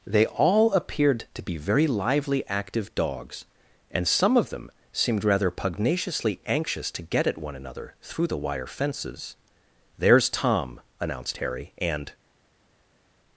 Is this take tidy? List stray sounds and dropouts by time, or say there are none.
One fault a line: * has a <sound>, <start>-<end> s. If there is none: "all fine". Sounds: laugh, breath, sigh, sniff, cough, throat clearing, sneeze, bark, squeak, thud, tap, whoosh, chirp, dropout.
all fine